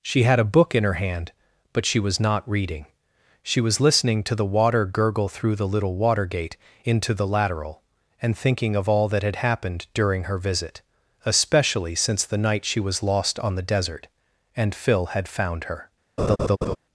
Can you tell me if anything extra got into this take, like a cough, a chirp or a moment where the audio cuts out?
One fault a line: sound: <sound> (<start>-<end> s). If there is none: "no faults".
sound: laugh (16.2-16.8 s)